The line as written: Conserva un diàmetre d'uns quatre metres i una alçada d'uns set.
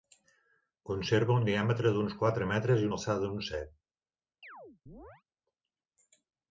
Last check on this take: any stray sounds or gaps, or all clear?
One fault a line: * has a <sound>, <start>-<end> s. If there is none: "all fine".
* has a chirp, 4.4-5.2 s